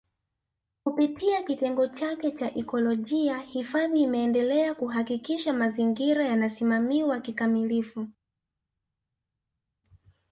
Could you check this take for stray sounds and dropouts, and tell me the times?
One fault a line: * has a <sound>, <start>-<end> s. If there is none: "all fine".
all fine